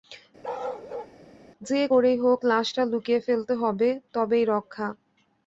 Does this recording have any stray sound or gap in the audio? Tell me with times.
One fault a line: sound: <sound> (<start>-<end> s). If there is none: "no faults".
sound: bark (0.4-1.2 s)